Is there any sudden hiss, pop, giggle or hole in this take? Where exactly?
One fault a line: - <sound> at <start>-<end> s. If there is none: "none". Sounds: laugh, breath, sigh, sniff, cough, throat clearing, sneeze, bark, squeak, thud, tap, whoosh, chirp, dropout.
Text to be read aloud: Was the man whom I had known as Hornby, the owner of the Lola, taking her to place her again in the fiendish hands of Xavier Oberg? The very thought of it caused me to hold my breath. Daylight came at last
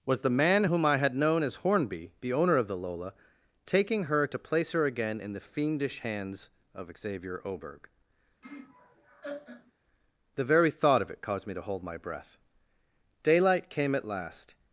- laugh at 8.4-9.7 s